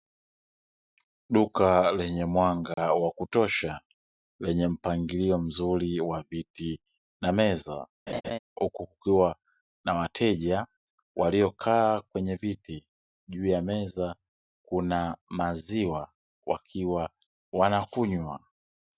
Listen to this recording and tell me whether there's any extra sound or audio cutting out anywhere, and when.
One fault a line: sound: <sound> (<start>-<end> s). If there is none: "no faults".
sound: dropout (2.7-2.8 s)
sound: laugh (8.1-8.4 s)